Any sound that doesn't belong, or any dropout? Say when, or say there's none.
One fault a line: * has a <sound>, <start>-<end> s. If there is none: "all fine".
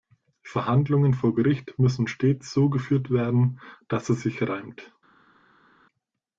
all fine